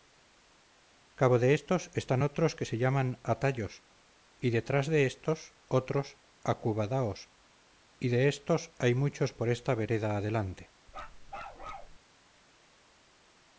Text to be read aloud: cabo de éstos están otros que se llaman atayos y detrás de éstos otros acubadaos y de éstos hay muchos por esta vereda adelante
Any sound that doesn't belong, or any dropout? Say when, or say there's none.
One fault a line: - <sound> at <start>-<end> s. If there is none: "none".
- bark at 10.9-12.0 s